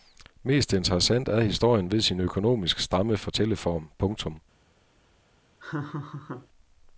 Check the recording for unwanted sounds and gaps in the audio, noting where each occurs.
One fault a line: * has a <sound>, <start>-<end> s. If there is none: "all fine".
* has a laugh, 5.6-6.5 s